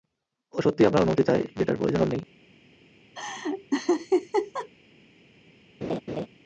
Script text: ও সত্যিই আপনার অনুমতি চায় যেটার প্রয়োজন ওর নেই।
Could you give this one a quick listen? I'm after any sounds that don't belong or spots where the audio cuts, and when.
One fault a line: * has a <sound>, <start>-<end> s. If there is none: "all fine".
* has a laugh, 3.2-4.7 s
* has a laugh, 5.8-6.3 s